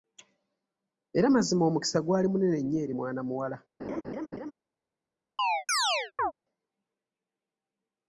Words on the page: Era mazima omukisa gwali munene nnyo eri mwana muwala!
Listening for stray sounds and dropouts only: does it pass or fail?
fail